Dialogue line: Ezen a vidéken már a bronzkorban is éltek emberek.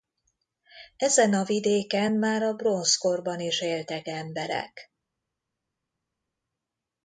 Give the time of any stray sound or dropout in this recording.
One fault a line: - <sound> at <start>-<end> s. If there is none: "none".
none